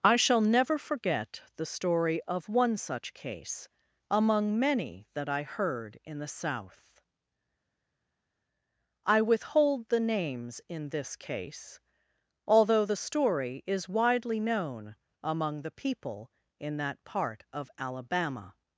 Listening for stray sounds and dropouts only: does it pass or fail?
pass